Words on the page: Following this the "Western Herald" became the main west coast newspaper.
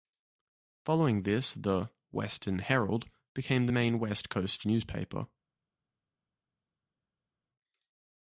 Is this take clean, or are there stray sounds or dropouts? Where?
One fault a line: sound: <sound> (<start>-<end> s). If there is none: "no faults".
no faults